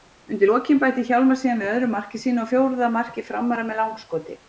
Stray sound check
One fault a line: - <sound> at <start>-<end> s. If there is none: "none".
none